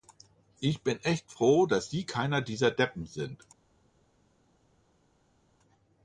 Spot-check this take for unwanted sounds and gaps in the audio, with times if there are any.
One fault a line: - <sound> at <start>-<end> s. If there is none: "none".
none